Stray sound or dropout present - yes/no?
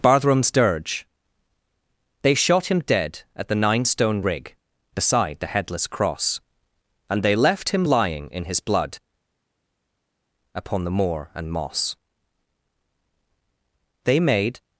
no